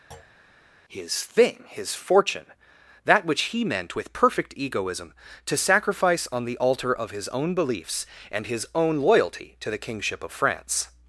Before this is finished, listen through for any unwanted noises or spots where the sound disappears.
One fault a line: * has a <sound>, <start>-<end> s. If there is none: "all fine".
* has a thud, 0.1-0.4 s